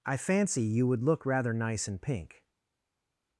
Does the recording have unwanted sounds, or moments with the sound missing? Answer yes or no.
no